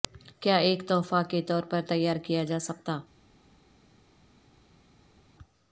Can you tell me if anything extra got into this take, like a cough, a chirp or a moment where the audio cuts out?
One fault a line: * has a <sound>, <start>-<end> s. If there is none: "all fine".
all fine